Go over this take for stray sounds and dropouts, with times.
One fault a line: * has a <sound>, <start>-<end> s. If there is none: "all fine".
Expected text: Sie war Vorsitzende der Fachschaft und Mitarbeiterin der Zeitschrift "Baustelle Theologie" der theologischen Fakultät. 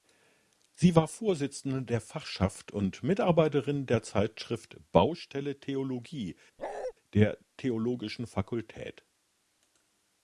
* has a bark, 6.6-6.9 s